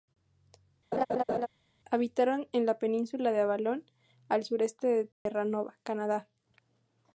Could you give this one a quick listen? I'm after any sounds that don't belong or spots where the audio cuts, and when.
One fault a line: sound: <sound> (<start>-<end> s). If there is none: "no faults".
sound: laugh (0.9-1.5 s)
sound: dropout (5.1-5.3 s)